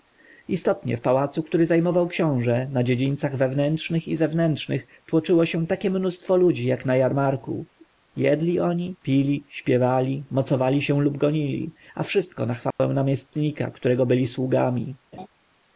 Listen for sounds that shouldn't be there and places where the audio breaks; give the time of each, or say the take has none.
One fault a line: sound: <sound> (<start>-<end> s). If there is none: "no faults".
sound: dropout (12.7-12.8 s)
sound: laugh (15.1-15.3 s)